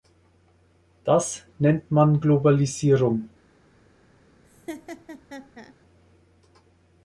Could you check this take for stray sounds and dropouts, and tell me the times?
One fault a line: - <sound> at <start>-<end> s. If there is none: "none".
- laugh at 4.4-5.7 s